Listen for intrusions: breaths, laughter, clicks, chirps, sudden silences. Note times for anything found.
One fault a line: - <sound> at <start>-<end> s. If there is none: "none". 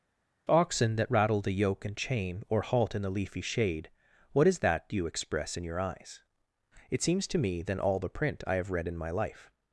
none